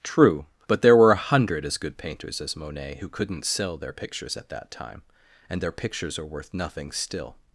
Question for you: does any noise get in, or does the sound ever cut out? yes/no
no